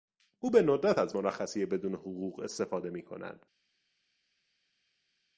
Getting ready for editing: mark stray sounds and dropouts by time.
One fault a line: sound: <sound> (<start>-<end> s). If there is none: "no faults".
no faults